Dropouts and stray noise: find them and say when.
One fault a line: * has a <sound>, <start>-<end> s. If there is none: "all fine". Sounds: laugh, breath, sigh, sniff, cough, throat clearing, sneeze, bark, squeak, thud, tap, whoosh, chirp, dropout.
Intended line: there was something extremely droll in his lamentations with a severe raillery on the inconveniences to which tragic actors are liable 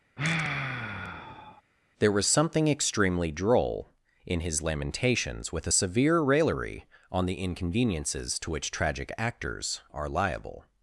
* has a sigh, 0.2-1.6 s